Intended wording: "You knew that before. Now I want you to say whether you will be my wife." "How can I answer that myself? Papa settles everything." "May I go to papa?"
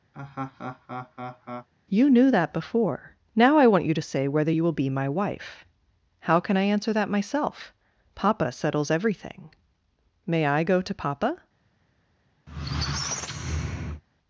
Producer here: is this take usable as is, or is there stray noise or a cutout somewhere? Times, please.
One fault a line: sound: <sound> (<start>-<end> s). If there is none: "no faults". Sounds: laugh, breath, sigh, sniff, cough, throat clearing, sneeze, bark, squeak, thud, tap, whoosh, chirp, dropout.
sound: laugh (0.1-1.7 s)
sound: squeak (12.5-14.0 s)